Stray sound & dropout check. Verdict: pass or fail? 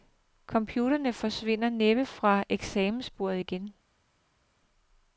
pass